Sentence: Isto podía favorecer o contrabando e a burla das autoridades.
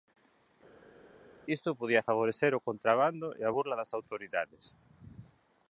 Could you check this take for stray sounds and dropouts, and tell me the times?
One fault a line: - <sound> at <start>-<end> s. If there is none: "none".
none